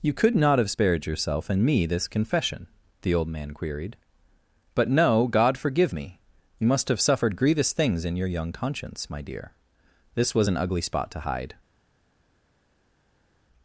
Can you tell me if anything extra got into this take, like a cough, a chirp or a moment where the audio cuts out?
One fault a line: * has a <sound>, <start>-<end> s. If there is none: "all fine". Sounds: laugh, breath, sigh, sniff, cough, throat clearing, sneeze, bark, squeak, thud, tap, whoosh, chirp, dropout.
all fine